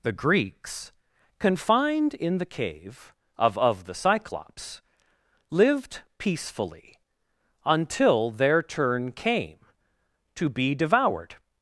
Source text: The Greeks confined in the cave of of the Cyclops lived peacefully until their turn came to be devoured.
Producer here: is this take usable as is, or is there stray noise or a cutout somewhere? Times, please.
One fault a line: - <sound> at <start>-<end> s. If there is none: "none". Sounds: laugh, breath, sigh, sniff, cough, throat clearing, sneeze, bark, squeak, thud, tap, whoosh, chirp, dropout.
none